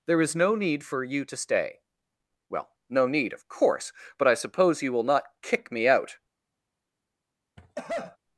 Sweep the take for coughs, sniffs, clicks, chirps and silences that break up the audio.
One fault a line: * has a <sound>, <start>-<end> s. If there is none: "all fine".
* has a cough, 7.6-8.2 s